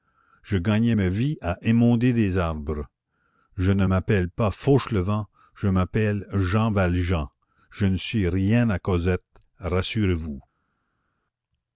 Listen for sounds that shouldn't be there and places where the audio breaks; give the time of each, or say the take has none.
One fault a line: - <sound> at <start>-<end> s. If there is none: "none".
none